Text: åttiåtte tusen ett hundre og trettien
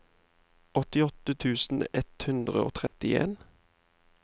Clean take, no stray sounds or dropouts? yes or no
no